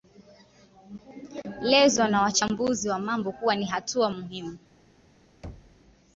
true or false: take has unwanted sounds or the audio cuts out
true